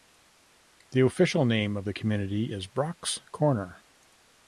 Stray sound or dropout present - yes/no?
no